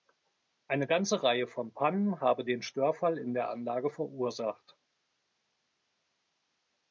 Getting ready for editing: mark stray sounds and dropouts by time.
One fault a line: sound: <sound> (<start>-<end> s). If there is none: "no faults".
no faults